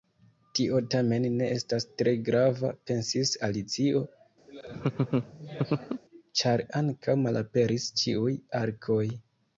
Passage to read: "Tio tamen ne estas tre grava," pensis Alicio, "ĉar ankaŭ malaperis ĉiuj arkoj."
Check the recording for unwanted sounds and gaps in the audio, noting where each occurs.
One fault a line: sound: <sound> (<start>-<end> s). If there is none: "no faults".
sound: laugh (4.5-6.0 s)